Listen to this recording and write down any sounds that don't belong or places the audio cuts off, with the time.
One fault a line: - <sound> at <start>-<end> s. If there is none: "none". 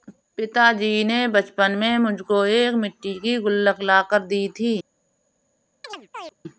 - chirp at 5.8-6.3 s